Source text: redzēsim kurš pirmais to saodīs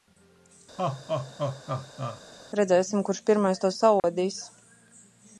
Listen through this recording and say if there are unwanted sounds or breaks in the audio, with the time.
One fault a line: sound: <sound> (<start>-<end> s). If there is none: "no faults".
sound: laugh (0.8-2.2 s)
sound: dropout (4.0-4.0 s)